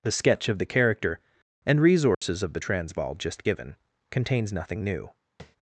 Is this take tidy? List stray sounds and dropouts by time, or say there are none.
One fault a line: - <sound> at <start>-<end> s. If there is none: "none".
- dropout at 2.1-2.2 s
- tap at 5.4-5.6 s